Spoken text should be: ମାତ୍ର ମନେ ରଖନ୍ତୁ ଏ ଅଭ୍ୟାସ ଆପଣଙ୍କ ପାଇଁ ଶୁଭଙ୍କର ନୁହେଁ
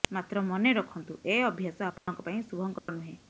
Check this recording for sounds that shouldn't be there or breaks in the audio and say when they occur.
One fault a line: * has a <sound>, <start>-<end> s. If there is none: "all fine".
* has a dropout, 2.0-2.1 s
* has a dropout, 2.8-2.9 s